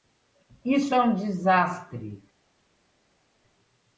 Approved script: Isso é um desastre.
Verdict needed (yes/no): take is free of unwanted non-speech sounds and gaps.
yes